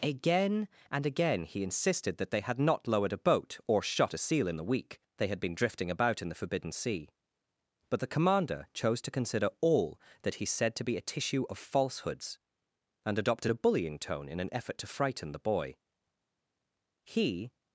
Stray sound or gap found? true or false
false